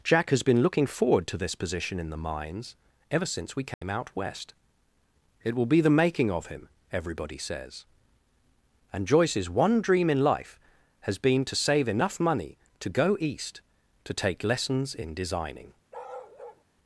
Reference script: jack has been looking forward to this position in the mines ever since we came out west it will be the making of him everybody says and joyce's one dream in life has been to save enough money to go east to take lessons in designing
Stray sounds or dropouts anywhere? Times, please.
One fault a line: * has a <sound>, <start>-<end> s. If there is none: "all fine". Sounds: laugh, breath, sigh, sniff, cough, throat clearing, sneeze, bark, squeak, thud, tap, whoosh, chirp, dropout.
* has a dropout, 3.7-3.8 s
* has a bark, 15.9-16.6 s